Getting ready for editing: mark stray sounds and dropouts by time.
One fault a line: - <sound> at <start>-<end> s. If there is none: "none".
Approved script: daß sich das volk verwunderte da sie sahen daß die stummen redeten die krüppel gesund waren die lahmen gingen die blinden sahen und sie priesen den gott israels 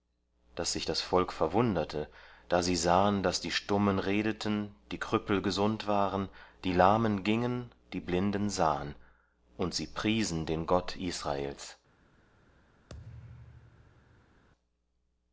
- thud at 12.9-14.4 s